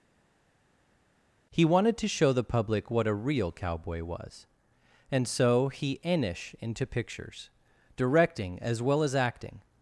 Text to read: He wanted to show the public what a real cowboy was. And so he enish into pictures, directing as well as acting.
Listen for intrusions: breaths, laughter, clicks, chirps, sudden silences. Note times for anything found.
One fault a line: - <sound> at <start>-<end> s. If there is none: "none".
none